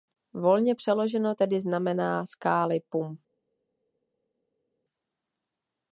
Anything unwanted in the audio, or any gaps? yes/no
no